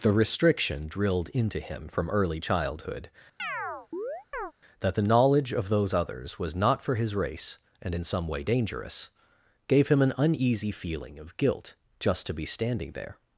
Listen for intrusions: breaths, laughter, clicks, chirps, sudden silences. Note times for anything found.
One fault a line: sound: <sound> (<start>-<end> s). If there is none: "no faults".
sound: chirp (3.4-4.5 s)